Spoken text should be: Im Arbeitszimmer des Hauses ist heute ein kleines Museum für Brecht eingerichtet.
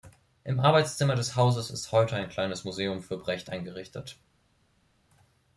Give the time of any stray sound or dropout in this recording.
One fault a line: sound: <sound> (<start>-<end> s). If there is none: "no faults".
no faults